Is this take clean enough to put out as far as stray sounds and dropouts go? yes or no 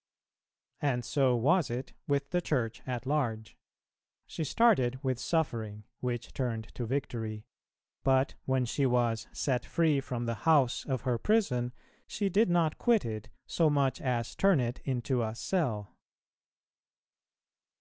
yes